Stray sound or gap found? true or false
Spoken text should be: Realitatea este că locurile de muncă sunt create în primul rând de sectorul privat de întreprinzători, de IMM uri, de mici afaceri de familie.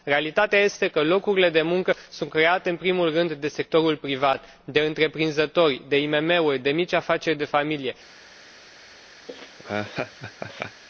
true